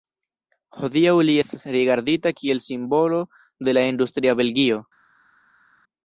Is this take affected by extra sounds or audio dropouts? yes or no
no